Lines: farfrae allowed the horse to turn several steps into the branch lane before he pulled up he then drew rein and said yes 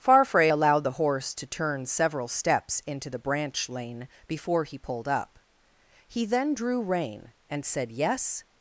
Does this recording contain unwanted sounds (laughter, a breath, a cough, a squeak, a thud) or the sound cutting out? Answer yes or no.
no